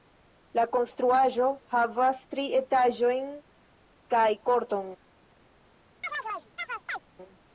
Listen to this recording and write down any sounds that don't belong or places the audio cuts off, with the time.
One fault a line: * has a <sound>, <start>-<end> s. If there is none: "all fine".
* has a chirp, 6.0-7.0 s